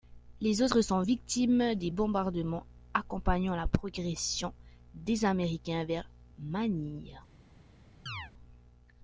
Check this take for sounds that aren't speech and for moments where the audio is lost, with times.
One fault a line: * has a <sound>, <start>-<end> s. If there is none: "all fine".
* has a chirp, 8.1-8.3 s